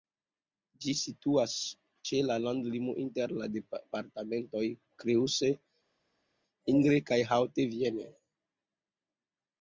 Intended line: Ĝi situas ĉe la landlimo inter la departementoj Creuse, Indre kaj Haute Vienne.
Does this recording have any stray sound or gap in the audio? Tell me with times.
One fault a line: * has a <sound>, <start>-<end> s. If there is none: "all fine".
all fine